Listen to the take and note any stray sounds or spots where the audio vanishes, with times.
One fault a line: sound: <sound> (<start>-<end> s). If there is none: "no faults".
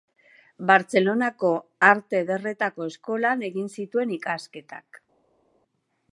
no faults